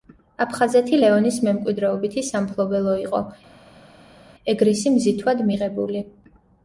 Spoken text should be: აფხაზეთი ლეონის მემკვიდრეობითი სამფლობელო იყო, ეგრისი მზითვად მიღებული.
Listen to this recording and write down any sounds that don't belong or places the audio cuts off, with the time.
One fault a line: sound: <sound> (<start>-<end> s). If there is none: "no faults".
no faults